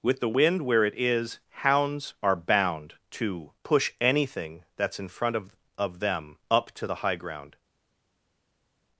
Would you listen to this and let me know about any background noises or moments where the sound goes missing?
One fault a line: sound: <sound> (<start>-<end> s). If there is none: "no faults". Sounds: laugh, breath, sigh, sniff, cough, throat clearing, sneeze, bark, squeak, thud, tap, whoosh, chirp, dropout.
no faults